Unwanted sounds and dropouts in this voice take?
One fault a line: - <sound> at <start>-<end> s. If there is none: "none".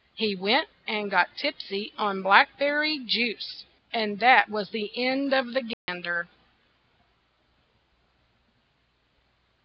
- dropout at 5.7-5.9 s